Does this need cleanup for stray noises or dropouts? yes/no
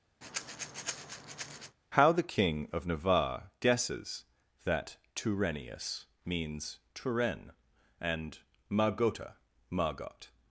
yes